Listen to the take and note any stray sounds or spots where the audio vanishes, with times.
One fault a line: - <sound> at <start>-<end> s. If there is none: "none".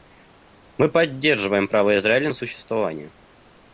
none